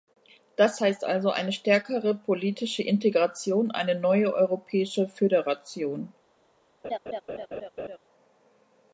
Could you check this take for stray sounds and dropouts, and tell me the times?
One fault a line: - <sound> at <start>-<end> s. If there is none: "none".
- laugh at 6.8-8.0 s